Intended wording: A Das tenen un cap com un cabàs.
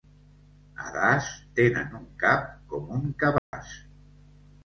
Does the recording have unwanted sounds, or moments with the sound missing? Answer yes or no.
yes